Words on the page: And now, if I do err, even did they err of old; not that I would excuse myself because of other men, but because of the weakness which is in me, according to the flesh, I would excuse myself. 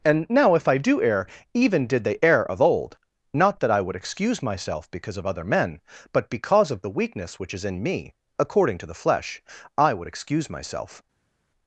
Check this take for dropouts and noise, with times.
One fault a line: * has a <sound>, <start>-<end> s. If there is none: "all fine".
all fine